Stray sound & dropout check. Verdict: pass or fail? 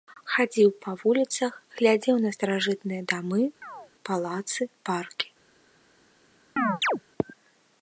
fail